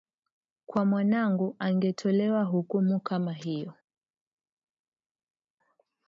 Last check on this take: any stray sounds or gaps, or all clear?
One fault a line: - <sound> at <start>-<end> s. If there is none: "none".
none